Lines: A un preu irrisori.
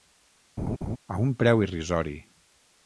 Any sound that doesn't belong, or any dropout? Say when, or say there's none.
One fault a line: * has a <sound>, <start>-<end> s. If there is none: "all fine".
* has a laugh, 0.6-1.0 s